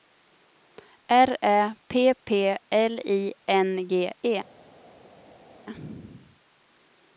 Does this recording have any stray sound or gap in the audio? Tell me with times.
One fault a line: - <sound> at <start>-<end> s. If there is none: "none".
none